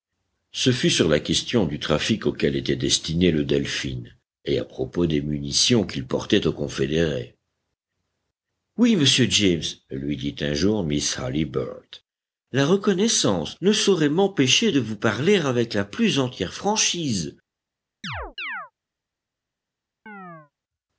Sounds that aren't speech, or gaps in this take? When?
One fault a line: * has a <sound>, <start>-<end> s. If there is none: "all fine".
* has a chirp, 18.0-18.7 s
* has a chirp, 20.1-20.5 s